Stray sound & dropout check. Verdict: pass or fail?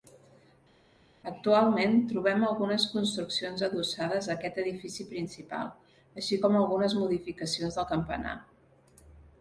pass